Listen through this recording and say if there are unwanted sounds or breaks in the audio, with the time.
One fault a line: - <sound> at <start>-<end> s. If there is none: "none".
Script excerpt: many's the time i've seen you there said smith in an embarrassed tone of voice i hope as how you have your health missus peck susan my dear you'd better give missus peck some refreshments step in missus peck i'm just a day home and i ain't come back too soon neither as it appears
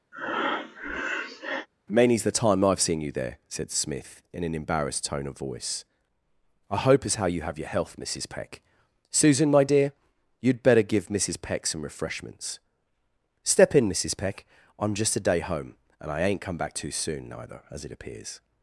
- breath at 0.1-1.7 s